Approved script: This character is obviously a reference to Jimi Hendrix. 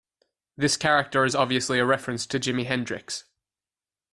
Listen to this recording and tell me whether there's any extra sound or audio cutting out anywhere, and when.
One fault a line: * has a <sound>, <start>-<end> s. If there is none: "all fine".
all fine